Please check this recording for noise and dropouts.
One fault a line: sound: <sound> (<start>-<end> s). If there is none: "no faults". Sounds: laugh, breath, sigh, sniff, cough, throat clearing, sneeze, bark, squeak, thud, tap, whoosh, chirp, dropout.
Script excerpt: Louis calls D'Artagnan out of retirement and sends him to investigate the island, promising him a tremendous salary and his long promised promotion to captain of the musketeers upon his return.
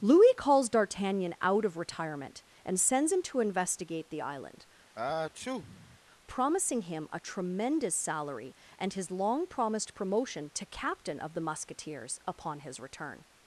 sound: sneeze (5.0-6.0 s)